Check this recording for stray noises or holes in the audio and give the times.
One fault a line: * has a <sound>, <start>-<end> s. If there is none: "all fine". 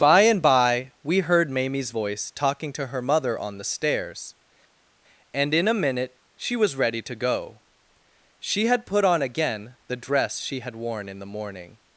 all fine